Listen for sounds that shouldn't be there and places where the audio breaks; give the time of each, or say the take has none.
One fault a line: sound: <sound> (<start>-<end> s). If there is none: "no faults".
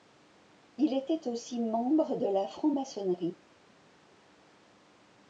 no faults